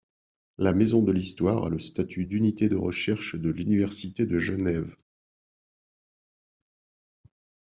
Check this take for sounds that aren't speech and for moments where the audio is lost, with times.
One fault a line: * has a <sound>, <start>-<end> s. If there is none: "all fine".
all fine